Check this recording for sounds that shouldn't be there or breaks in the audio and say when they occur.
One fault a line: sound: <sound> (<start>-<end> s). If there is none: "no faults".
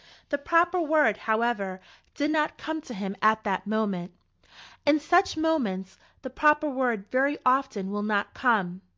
no faults